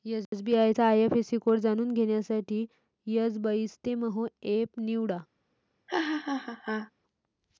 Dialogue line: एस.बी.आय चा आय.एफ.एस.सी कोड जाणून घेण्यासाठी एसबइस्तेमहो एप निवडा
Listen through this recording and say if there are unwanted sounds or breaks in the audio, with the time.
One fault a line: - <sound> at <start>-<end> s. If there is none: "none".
- laugh at 5.9-6.9 s